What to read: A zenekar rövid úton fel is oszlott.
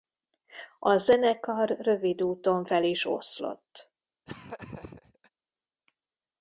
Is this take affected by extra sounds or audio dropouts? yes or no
yes